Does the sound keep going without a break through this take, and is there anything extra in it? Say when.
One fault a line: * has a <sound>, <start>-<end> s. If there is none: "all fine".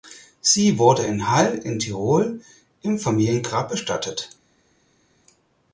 all fine